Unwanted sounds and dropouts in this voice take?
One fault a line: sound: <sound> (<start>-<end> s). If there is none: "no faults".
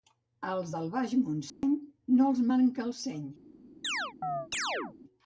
sound: dropout (1.5-1.6 s)
sound: chirp (3.8-5.0 s)